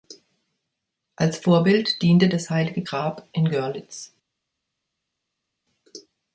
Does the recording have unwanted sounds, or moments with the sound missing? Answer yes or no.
no